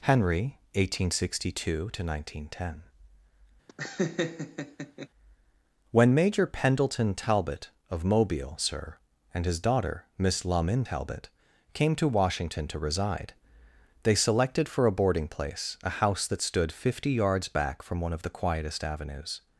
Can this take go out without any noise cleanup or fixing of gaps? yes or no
no